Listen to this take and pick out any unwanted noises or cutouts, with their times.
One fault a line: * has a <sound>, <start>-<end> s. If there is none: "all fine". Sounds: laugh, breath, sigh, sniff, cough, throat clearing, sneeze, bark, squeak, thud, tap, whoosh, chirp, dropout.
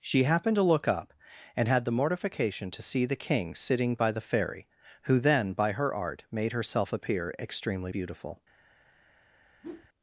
* has a whoosh, 9.6-9.9 s